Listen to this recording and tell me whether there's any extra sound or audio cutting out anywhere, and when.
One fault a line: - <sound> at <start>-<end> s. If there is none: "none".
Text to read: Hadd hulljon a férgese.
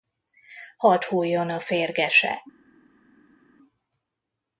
none